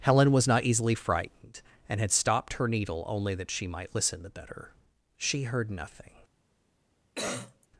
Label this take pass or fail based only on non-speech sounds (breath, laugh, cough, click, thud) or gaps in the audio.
fail